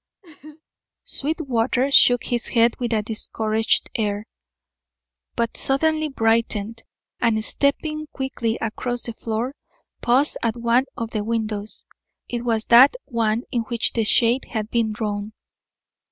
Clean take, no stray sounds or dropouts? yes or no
no